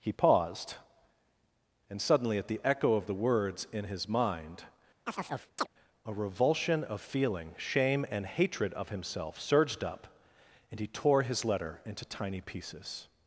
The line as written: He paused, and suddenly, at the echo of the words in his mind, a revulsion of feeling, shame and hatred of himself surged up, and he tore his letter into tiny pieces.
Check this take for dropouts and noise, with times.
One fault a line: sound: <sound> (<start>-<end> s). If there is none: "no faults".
sound: chirp (5.1-5.7 s)